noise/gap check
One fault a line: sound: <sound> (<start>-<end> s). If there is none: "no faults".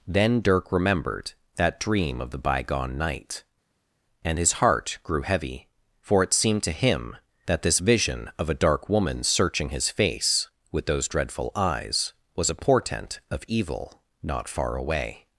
no faults